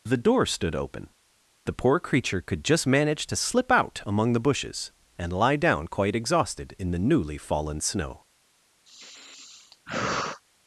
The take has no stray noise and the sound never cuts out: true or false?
false